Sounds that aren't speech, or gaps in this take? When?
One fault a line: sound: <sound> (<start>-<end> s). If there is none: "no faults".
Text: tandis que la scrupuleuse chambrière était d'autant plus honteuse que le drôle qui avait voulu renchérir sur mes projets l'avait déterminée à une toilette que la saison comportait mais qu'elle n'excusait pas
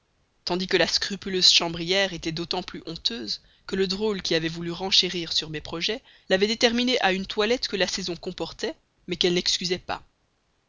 no faults